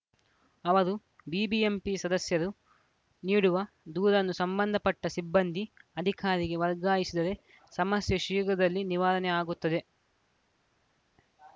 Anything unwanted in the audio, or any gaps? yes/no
no